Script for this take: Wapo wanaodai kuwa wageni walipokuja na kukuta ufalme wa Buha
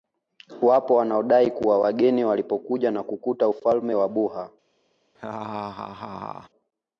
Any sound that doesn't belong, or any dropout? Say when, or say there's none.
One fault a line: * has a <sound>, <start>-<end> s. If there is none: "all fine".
* has a laugh, 5.1-6.5 s